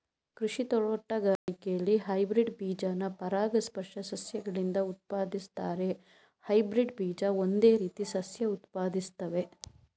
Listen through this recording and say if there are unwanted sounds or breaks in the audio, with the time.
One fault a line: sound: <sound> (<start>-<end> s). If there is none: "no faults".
sound: dropout (1.4-1.5 s)